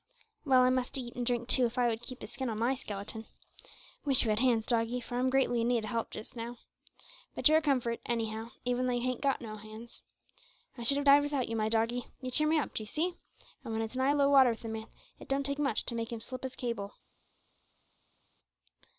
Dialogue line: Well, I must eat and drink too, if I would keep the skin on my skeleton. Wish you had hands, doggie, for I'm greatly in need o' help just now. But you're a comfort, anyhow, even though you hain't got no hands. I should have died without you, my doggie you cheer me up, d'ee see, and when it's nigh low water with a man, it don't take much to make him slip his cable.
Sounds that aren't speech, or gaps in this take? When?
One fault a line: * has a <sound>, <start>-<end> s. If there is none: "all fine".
all fine